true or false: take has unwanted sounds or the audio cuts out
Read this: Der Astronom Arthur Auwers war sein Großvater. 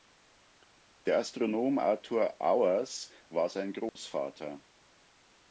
true